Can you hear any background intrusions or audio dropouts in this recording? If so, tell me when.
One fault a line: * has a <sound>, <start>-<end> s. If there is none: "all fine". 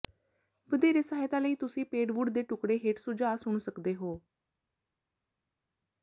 all fine